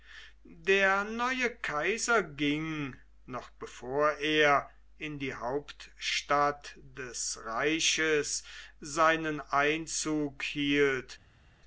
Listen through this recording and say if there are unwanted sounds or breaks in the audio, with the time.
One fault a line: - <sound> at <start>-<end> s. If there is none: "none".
none